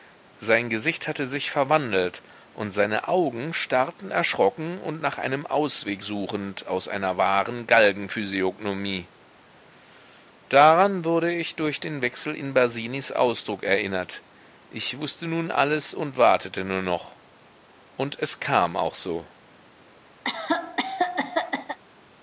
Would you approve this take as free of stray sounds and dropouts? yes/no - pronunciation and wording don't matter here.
no